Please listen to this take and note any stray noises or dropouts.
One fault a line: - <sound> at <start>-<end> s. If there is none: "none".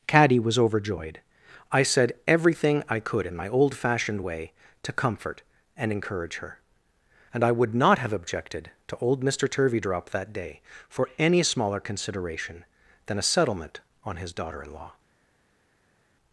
none